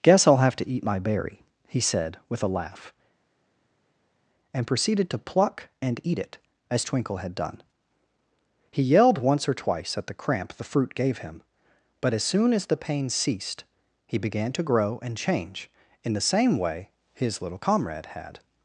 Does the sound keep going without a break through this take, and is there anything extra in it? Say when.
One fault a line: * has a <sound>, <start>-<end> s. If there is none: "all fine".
all fine